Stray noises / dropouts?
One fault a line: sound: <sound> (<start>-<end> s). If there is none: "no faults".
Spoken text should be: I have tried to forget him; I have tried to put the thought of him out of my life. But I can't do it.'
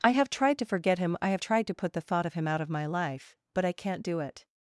no faults